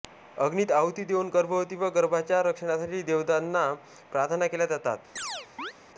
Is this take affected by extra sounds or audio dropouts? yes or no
yes